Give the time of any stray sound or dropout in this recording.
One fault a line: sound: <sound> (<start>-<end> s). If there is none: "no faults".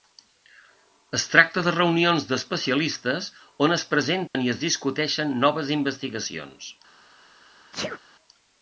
sound: dropout (4.3-4.3 s)
sound: sneeze (7.7-8.0 s)